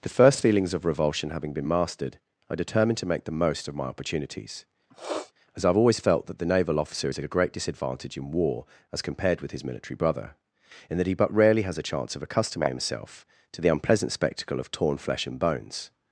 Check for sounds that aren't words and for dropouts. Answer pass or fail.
fail